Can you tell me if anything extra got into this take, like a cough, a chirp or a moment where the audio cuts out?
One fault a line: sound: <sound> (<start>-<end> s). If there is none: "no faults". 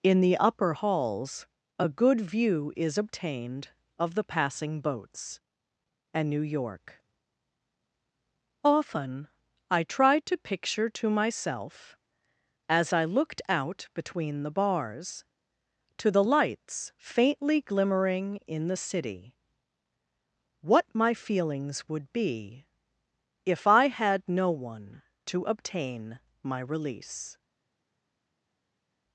no faults